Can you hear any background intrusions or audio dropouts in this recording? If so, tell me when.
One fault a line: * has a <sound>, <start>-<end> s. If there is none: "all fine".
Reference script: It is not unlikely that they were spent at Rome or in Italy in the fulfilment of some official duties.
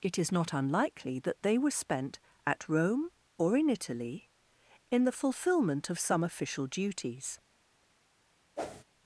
* has a whoosh, 8.6-8.8 s